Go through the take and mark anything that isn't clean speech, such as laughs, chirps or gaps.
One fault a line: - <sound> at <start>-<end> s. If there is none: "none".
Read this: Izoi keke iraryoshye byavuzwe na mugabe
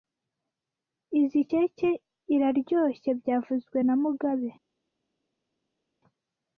none